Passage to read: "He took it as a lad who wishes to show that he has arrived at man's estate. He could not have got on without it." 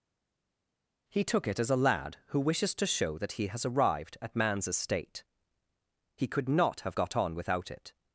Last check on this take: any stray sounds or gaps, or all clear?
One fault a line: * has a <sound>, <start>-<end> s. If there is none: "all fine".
all fine